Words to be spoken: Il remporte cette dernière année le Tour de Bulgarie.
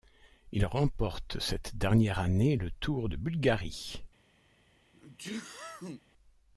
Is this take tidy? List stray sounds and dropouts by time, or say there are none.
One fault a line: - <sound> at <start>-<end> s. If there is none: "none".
- sneeze at 4.9-6.0 s